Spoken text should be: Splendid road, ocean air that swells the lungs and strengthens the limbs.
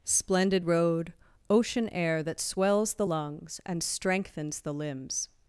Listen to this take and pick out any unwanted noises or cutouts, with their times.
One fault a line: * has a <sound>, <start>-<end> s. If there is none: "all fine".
all fine